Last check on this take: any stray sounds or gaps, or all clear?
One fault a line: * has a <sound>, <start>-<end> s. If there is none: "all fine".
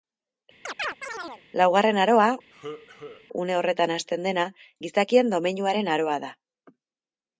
* has a chirp, 0.6-1.4 s
* has a cough, 2.5-3.3 s